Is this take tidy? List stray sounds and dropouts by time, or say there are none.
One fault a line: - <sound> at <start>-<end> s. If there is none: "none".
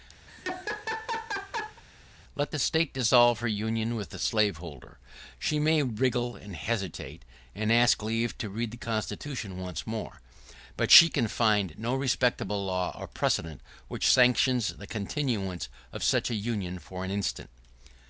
- laugh at 0.3-1.8 s